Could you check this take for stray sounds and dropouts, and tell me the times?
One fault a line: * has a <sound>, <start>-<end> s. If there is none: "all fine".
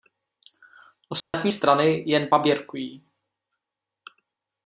* has a dropout, 1.2-1.3 s